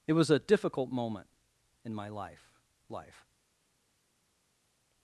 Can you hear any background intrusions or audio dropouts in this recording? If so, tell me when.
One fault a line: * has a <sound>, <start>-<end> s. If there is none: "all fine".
all fine